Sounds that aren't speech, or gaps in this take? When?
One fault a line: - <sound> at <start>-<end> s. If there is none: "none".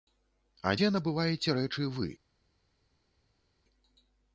none